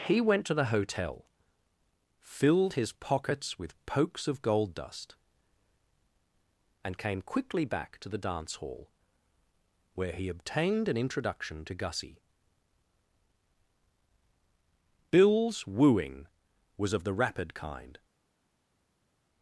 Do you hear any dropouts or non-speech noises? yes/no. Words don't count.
no